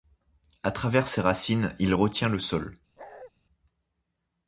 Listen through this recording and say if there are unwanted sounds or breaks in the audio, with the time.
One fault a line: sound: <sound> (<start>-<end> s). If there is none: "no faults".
sound: bark (3.0-3.3 s)